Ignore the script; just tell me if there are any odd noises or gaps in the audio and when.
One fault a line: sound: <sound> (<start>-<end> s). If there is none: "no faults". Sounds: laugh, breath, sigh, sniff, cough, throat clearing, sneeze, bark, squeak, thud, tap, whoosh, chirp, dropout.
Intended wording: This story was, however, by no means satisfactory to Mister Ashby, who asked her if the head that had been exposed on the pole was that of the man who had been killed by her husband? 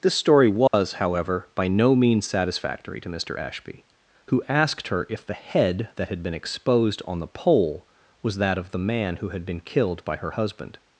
sound: dropout (0.7-0.7 s)